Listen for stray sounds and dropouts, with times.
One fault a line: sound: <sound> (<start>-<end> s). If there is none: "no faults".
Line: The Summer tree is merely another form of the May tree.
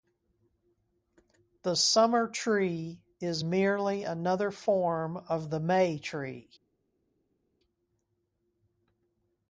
no faults